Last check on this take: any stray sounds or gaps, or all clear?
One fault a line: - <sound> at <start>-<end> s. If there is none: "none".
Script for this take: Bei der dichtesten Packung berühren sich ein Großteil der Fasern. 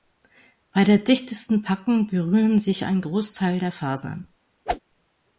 - whoosh at 4.7-4.8 s